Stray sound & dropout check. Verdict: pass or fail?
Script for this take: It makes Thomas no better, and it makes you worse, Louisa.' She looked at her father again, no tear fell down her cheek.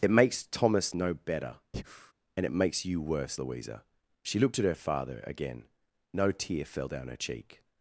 fail